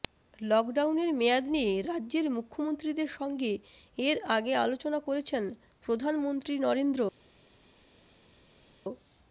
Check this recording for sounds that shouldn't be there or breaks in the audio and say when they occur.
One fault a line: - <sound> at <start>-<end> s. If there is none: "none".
none